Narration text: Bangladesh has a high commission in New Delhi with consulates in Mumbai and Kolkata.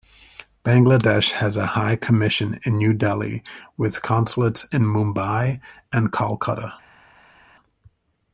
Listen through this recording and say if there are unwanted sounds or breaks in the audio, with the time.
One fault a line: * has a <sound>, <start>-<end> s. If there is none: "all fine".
all fine